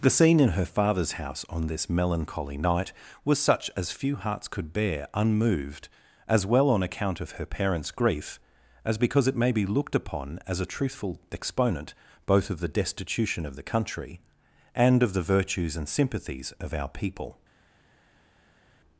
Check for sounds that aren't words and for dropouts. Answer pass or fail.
pass